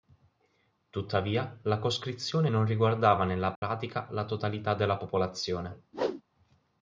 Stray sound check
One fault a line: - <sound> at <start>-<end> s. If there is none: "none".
- dropout at 3.6-3.6 s
- whoosh at 5.9-6.2 s